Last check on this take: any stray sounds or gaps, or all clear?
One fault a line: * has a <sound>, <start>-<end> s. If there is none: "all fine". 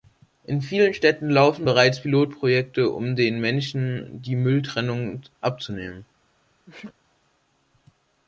* has a sneeze, 6.7-6.9 s